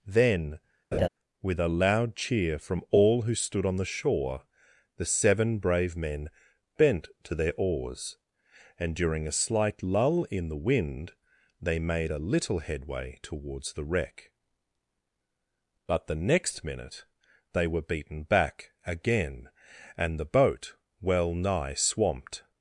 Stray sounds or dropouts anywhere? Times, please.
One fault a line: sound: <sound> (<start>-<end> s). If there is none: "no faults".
sound: laugh (0.9-1.1 s)